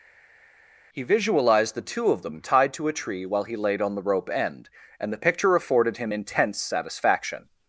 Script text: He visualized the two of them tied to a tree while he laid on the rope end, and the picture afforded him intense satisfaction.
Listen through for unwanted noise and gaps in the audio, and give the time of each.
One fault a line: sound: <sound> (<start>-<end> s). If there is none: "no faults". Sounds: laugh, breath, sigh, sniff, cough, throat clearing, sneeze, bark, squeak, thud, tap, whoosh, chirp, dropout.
no faults